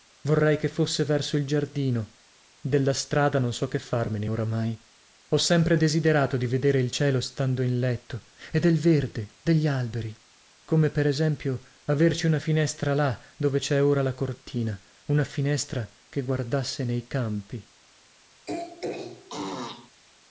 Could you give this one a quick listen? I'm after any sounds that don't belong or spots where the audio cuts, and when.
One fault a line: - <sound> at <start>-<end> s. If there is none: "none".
- throat clearing at 18.5-19.9 s